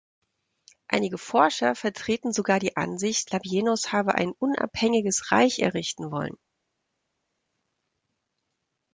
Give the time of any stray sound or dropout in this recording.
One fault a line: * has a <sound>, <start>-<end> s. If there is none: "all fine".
all fine